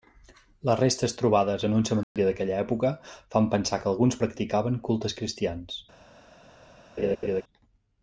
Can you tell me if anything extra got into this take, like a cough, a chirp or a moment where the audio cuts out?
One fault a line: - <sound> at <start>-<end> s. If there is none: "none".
- dropout at 2.0-2.2 s
- laugh at 7.0-7.4 s